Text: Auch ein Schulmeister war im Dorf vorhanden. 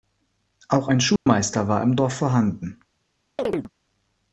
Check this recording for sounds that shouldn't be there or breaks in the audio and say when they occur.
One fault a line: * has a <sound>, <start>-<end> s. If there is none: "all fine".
* has a dropout, 1.2-1.3 s
* has a chirp, 3.4-3.7 s